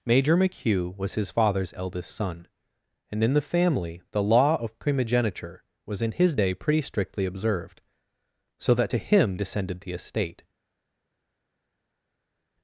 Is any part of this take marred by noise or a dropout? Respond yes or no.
no